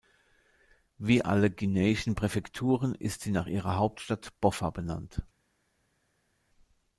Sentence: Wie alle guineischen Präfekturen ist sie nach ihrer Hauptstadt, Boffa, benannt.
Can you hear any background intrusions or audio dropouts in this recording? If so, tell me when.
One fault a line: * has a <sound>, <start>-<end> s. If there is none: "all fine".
all fine